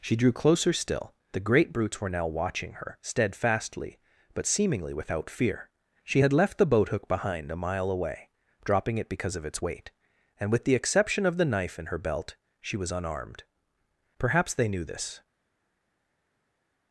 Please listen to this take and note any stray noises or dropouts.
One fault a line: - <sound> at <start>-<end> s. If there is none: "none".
none